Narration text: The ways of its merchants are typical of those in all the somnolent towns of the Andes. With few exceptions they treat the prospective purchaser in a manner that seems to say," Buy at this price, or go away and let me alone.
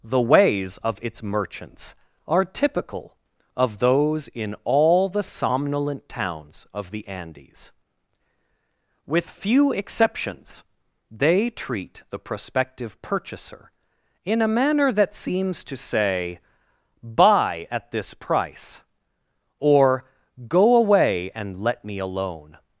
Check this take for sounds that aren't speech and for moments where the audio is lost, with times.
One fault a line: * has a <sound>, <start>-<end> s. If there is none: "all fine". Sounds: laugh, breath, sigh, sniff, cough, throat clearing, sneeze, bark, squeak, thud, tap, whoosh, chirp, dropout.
all fine